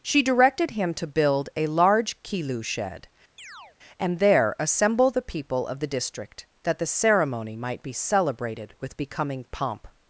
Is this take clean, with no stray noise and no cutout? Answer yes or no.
no